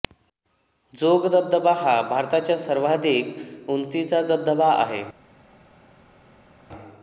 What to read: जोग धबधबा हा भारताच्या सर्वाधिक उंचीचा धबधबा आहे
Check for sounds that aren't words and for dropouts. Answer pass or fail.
pass